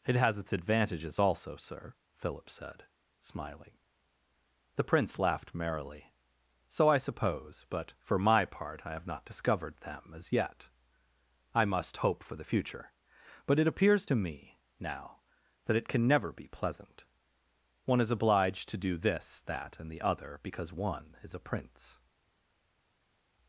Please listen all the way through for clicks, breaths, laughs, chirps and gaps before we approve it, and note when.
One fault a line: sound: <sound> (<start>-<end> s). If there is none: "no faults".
no faults